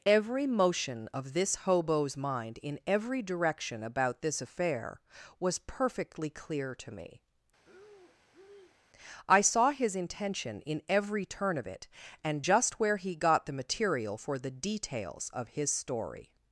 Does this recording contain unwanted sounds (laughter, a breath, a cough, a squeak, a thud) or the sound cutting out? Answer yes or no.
yes